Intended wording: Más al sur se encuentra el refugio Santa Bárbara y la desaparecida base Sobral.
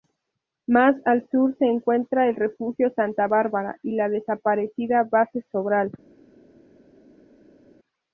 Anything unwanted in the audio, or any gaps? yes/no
no